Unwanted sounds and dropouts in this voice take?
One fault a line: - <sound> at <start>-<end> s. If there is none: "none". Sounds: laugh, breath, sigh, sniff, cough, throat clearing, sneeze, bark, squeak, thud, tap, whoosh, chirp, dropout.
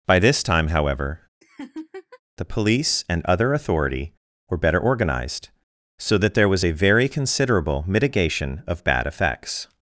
- laugh at 1.4-2.2 s